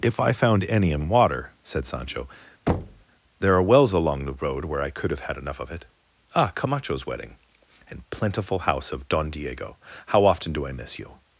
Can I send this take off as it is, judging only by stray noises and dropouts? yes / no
no